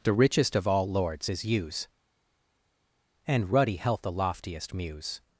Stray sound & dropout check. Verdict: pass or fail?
pass